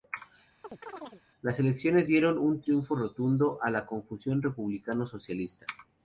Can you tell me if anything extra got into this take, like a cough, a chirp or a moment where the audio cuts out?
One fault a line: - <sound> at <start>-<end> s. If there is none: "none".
- chirp at 0.6-1.2 s